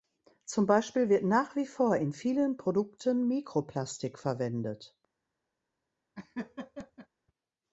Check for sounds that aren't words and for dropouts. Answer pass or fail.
fail